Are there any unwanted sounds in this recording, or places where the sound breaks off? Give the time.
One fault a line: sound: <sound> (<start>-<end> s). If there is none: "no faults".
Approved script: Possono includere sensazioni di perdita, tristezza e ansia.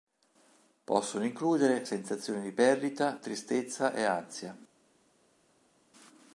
no faults